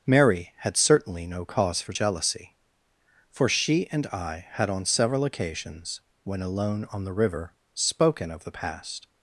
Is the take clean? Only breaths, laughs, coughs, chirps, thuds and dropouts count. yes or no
yes